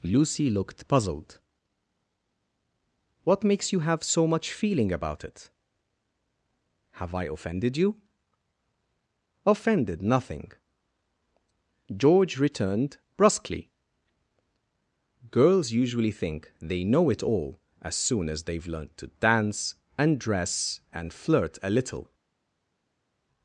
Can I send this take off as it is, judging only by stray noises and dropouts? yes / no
yes